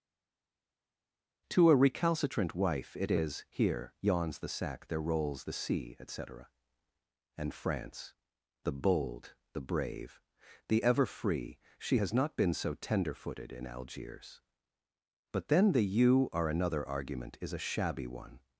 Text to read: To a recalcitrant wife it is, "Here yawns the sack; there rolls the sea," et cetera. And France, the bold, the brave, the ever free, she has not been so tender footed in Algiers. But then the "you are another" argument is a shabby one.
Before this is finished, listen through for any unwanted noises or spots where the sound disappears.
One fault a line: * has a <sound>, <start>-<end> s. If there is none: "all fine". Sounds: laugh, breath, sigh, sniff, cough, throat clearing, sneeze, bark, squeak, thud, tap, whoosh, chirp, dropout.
all fine